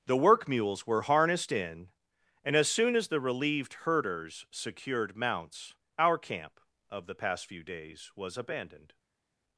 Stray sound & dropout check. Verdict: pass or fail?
pass